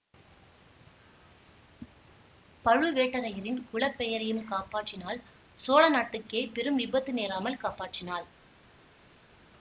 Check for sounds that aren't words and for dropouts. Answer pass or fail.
pass